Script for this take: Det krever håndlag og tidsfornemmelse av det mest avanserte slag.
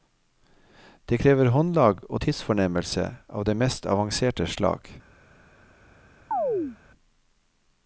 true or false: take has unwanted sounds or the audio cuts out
true